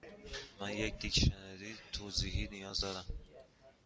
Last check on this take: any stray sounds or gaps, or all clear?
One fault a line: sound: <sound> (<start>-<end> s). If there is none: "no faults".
no faults